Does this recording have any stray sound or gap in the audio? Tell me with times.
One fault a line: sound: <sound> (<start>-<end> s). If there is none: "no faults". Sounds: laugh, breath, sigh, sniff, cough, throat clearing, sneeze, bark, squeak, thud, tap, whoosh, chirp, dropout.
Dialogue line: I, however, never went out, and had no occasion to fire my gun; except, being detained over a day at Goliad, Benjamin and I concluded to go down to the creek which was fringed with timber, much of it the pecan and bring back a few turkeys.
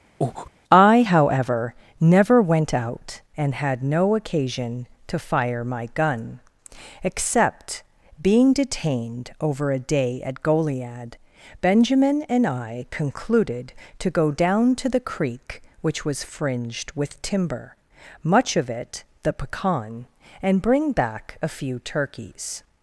sound: breath (0.2-0.5 s)